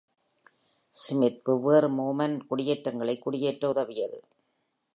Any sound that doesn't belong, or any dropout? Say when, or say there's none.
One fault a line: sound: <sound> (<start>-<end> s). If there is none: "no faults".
no faults